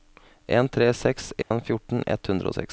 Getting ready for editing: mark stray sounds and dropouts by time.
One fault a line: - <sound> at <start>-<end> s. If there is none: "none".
- dropout at 1.4-1.5 s